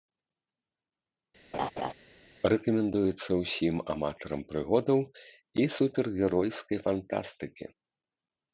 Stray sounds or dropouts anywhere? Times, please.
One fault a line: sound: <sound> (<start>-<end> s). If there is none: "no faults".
sound: laugh (1.5-1.9 s)